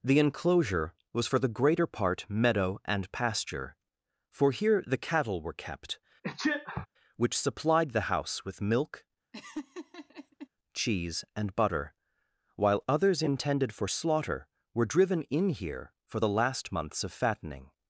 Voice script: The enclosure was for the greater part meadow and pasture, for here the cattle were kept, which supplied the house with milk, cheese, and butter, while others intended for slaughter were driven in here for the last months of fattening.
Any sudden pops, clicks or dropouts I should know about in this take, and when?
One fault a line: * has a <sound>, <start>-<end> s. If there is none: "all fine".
* has a sneeze, 6.2-6.9 s
* has a laugh, 9.3-10.5 s